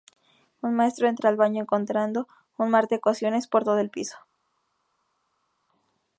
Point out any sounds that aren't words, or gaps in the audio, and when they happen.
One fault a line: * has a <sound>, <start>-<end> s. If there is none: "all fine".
all fine